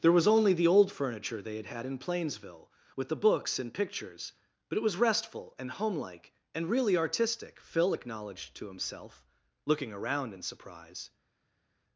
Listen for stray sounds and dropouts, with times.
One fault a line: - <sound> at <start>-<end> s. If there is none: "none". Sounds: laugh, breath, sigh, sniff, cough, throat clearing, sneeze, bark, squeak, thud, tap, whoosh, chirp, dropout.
none